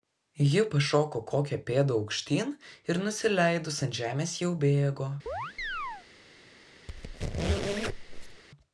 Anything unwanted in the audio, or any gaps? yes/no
yes